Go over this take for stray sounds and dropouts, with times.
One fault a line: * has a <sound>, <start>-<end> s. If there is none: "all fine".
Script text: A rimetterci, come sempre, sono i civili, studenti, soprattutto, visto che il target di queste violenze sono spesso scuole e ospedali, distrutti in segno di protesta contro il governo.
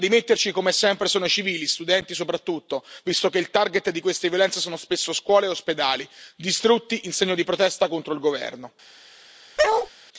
* has a bark, 9.6-9.9 s